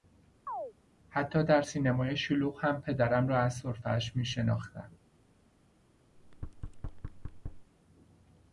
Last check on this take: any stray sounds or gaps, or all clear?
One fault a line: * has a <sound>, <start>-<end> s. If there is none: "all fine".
* has a chirp, 0.5-0.7 s
* has a thud, 6.1-7.7 s